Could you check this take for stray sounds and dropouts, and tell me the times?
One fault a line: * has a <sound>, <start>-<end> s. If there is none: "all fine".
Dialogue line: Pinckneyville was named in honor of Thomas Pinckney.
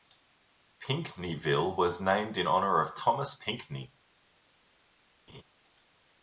* has a laugh, 5.3-5.4 s